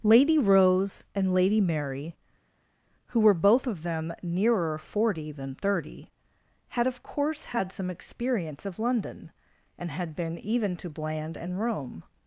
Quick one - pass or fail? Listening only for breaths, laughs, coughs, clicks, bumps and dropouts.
pass